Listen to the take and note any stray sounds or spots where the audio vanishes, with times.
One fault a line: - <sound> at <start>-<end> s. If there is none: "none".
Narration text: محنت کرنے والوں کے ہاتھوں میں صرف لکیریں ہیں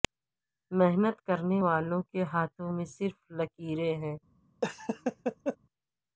- laugh at 4.6-5.6 s